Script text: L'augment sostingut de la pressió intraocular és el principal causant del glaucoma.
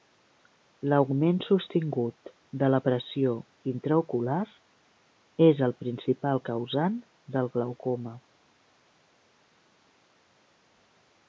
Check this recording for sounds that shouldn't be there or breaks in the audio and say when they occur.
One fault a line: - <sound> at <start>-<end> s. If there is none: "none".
none